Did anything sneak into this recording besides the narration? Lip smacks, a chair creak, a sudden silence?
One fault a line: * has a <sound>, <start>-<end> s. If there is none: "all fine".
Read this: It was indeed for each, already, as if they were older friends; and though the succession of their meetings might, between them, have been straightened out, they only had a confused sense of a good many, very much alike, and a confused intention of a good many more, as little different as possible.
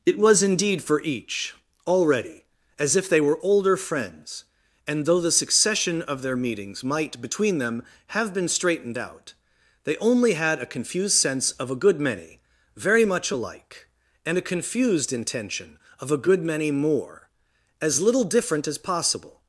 all fine